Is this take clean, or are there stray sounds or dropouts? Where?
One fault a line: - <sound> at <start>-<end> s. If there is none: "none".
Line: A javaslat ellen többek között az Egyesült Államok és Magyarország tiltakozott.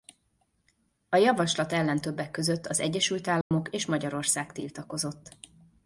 - dropout at 3.4-3.5 s